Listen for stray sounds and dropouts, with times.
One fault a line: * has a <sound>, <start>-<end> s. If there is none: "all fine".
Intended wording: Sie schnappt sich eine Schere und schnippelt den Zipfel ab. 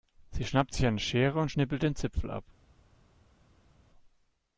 all fine